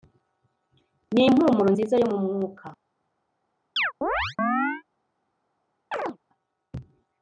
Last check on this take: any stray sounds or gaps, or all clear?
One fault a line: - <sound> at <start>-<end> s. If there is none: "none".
- chirp at 3.8-4.8 s
- chirp at 5.9-6.2 s